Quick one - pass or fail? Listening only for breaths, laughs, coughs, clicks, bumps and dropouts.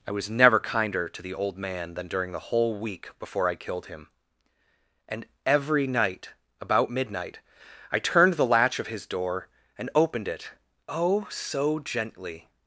pass